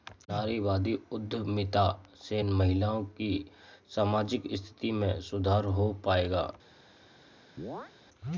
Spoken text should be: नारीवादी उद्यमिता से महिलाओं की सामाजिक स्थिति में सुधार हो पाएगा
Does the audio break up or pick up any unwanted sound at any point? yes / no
yes